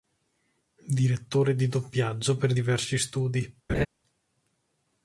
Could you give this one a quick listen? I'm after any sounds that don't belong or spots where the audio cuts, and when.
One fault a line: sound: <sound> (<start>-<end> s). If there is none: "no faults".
sound: laugh (3.7-3.9 s)